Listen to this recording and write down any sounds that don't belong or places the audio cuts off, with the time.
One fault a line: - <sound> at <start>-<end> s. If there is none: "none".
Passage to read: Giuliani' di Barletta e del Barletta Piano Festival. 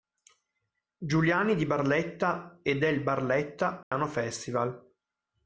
- dropout at 3.8-3.9 s